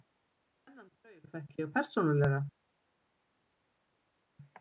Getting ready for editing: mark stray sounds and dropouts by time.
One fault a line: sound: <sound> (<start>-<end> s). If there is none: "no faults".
no faults